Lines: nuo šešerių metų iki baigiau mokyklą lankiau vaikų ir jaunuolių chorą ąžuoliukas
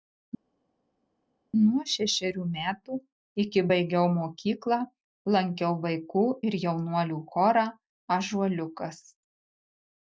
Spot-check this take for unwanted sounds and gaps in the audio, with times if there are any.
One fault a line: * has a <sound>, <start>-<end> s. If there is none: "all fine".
all fine